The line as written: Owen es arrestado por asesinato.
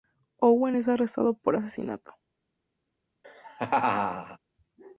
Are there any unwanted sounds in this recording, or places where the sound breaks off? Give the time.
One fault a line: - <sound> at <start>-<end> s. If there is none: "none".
- laugh at 3.2-4.4 s